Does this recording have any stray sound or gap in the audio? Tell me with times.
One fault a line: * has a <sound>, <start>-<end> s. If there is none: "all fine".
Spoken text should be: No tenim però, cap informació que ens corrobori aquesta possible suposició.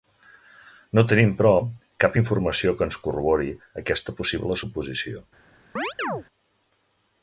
* has a chirp, 5.8-6.2 s